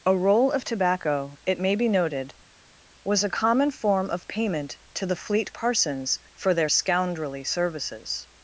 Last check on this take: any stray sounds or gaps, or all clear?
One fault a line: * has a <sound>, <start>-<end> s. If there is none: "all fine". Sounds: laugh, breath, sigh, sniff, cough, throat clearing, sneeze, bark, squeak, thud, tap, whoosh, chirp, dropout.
all fine